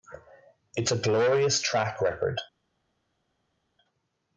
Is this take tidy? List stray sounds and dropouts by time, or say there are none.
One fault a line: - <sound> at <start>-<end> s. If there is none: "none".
none